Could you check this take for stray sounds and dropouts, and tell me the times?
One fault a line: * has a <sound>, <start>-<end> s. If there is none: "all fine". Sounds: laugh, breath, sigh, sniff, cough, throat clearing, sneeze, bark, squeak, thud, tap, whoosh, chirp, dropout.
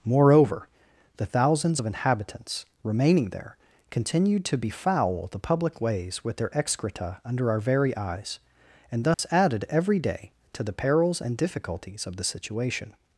* has a dropout, 9.1-9.2 s